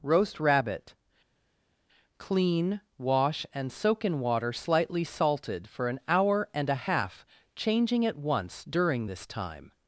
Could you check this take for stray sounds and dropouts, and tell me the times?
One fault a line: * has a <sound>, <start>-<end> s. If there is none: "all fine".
all fine